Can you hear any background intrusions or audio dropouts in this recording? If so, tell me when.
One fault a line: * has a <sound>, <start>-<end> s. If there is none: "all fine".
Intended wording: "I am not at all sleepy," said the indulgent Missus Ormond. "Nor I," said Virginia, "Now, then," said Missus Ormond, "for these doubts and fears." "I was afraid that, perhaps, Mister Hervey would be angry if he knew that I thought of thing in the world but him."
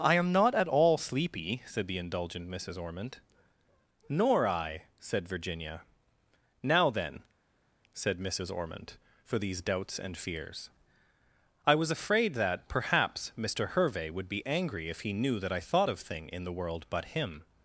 all fine